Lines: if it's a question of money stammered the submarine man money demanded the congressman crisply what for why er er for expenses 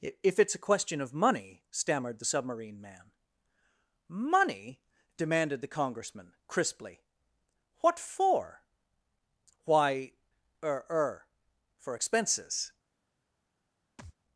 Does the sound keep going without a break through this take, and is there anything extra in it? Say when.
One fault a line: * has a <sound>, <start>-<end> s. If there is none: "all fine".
* has a thud, 14.0-14.1 s